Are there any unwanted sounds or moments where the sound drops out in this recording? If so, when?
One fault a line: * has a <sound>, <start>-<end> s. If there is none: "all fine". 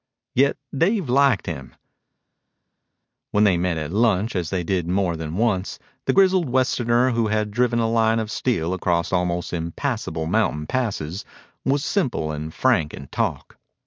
all fine